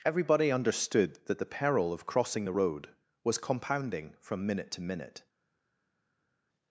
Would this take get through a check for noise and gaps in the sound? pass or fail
pass